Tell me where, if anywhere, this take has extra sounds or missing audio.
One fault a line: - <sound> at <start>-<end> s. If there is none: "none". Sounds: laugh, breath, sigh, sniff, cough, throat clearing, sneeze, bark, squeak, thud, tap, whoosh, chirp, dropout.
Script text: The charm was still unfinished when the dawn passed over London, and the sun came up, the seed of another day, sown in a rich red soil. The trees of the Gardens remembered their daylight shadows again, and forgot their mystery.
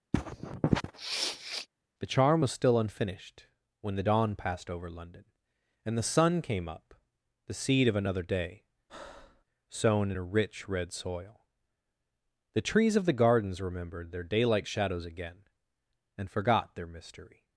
- sniff at 0.1-1.7 s
- breath at 8.9-9.4 s